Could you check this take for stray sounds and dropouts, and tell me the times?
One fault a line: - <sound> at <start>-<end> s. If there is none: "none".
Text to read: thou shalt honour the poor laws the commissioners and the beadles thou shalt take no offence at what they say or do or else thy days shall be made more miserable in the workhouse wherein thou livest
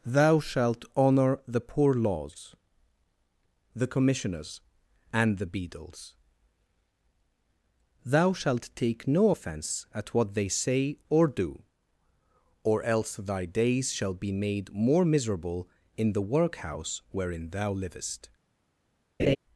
- laugh at 19.2-19.4 s